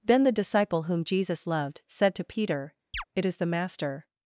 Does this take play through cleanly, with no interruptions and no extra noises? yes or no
no